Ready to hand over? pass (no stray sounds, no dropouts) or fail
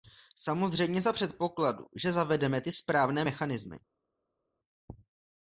pass